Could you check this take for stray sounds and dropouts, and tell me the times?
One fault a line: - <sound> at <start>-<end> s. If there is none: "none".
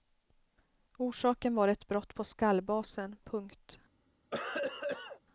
- cough at 4.3-5.2 s